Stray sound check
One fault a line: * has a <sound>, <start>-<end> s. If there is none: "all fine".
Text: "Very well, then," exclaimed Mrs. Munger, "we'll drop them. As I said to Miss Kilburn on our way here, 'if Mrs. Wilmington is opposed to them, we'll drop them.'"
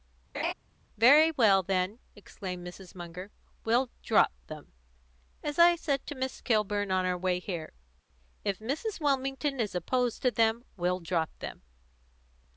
* has a laugh, 0.3-0.5 s